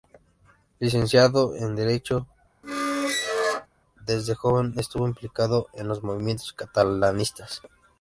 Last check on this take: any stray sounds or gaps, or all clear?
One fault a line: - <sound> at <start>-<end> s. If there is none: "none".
- squeak at 2.6-3.7 s